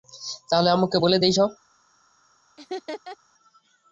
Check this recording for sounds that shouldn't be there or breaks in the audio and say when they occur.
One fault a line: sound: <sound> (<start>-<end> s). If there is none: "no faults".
sound: laugh (2.6-3.2 s)